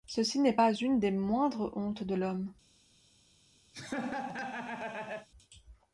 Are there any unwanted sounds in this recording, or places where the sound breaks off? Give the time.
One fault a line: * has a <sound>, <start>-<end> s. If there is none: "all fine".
* has a laugh, 3.7-5.3 s